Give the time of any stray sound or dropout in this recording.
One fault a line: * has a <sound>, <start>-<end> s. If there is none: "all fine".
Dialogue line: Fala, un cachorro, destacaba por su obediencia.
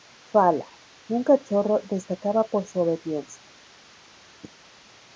all fine